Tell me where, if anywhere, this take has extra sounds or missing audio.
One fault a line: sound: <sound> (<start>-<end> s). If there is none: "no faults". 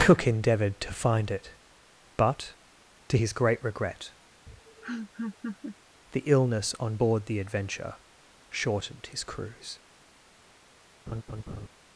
sound: laugh (4.5-5.8 s)
sound: laugh (11.1-11.7 s)